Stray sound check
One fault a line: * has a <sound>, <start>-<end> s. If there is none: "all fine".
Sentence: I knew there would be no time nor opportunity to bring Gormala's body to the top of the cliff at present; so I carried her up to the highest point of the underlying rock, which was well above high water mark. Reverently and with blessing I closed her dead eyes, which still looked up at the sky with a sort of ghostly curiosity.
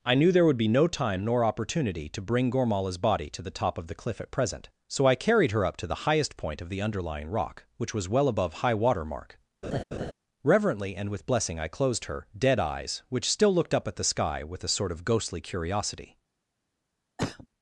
* has a laugh, 9.6-10.1 s
* has a cough, 17.2-17.5 s